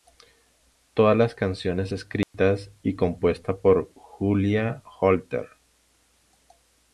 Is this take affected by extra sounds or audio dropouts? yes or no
yes